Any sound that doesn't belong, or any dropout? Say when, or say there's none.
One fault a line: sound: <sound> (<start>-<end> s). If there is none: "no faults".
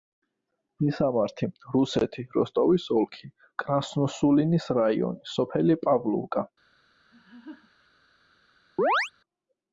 sound: laugh (7.1-7.9 s)
sound: chirp (8.8-9.1 s)